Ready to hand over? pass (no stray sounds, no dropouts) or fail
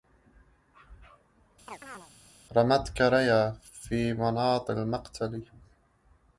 fail